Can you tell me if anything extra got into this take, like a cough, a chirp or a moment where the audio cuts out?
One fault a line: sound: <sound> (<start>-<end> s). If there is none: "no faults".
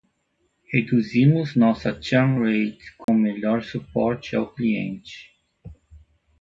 sound: dropout (3.0-3.1 s)